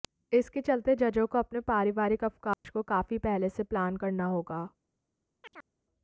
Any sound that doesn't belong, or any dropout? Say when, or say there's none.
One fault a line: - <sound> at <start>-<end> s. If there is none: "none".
- dropout at 2.5-2.6 s
- chirp at 5.4-5.7 s